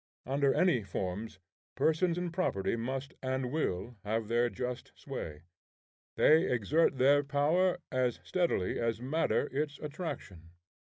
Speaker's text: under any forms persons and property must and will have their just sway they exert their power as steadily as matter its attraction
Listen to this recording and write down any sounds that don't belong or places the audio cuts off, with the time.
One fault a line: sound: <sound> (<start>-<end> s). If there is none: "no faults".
no faults